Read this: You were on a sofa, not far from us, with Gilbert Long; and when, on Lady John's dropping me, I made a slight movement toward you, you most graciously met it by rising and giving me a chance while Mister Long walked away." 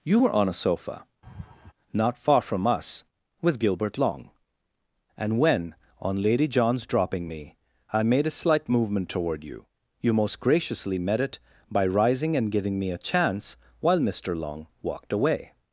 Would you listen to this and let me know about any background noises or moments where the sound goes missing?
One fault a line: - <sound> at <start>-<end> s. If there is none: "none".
- laugh at 1.2-1.7 s